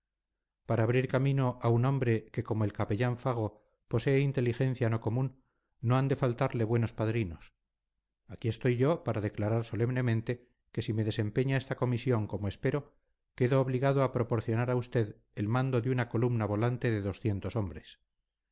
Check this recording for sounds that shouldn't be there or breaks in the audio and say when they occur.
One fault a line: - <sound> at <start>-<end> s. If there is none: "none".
none